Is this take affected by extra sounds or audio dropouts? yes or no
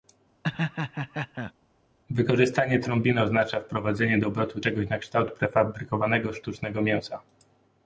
yes